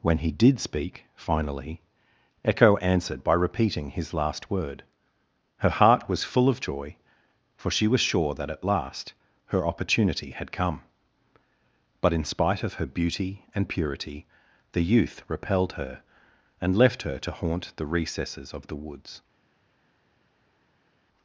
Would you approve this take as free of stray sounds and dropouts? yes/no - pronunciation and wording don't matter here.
yes